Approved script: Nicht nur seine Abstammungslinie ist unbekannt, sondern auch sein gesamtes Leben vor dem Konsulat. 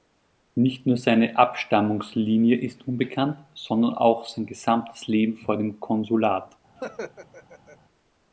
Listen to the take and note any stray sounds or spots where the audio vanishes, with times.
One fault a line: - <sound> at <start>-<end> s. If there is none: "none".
- laugh at 6.8-7.8 s